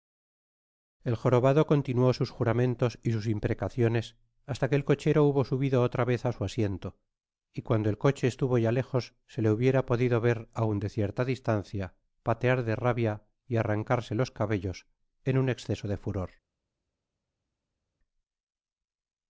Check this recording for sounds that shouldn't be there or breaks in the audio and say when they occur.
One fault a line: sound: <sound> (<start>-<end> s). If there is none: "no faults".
no faults